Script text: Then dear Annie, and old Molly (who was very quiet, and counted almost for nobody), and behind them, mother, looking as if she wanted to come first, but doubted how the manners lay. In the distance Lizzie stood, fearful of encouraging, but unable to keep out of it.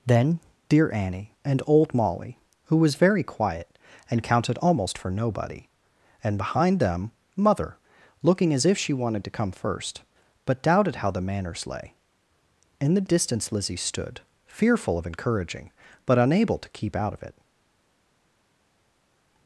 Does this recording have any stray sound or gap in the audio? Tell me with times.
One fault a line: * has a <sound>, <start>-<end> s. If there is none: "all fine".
all fine